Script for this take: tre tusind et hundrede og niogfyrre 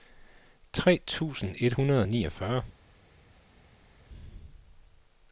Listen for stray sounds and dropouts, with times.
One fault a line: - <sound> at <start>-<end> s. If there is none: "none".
none